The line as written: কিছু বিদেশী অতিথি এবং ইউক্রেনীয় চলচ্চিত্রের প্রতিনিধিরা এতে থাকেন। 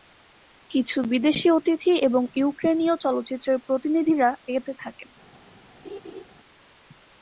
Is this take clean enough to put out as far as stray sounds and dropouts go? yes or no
no